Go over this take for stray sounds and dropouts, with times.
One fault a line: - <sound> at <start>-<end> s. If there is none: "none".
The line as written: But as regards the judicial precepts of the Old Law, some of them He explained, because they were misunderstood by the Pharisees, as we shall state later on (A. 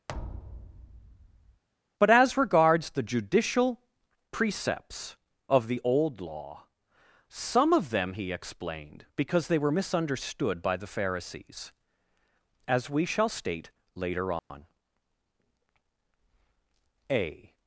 - thud at 0.1-1.6 s
- dropout at 14.4-14.5 s